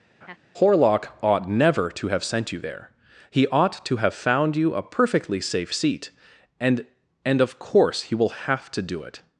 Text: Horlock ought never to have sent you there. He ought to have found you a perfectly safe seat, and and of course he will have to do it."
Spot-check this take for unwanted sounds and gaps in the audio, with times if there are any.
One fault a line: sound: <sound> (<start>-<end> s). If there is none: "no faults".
sound: laugh (0.2-0.4 s)